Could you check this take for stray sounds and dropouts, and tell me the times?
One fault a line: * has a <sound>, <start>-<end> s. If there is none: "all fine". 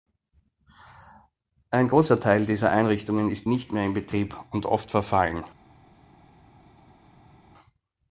all fine